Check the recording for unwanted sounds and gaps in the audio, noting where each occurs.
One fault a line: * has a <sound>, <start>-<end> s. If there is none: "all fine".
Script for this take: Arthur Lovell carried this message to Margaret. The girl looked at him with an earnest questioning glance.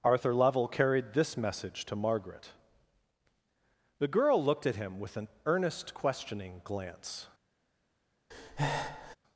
* has a breath, 8.3-9.2 s